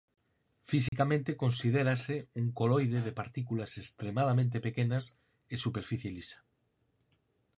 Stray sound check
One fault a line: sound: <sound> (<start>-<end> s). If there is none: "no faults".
sound: dropout (0.9-0.9 s)